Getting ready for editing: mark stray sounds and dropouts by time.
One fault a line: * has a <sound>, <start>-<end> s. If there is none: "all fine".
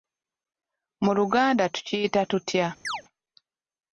* has a chirp, 2.8-3.0 s